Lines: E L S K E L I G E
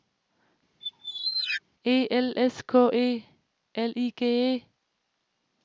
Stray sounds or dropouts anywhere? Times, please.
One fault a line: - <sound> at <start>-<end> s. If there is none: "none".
- squeak at 0.8-1.6 s